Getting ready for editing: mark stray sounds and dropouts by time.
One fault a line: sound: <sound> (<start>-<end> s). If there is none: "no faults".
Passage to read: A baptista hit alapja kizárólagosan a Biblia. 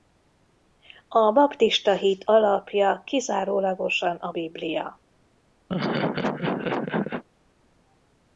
sound: laugh (5.7-7.2 s)